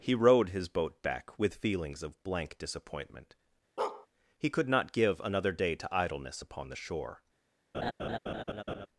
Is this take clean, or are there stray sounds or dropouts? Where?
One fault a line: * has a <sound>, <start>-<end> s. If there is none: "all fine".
* has a bark, 3.8-4.1 s
* has a laugh, 7.7-8.9 s